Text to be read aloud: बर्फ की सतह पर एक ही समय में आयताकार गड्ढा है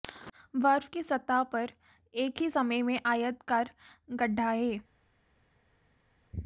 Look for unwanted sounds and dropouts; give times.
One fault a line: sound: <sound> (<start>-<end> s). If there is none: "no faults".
no faults